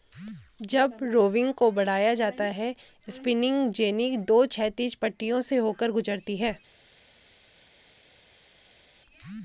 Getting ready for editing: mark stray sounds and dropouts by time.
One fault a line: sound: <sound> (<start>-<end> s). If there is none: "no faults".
no faults